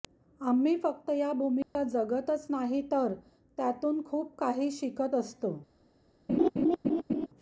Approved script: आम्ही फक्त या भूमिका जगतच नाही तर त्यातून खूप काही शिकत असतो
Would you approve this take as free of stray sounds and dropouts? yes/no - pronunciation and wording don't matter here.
no